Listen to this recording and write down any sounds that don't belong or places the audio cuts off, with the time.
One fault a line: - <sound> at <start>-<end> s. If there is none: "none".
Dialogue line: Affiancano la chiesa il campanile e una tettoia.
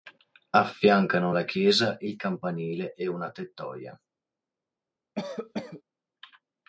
- cough at 5.2-5.8 s